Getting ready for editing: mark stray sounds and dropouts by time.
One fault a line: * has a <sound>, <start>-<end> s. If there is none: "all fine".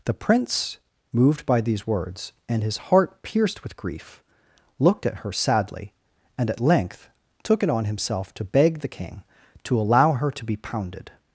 all fine